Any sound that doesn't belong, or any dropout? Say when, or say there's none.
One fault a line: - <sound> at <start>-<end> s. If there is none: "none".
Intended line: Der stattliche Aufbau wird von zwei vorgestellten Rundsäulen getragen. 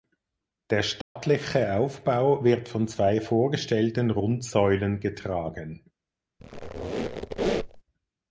- dropout at 1.0-1.2 s
- squeak at 6.4-7.8 s